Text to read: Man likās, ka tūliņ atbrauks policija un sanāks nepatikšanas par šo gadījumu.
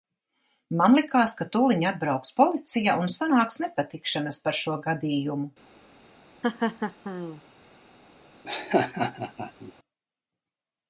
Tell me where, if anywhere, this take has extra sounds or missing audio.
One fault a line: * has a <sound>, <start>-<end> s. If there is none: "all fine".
* has a laugh, 6.4-7.4 s
* has a laugh, 8.4-9.7 s